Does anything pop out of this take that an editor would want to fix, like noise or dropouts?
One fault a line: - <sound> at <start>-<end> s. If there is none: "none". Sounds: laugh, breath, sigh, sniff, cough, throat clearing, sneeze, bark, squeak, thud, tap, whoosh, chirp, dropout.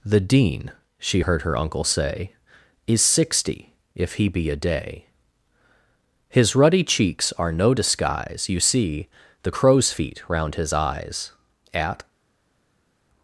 none